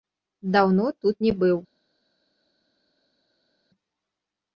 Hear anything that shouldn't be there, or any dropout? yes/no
no